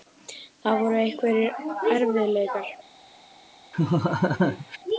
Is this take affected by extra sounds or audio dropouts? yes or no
yes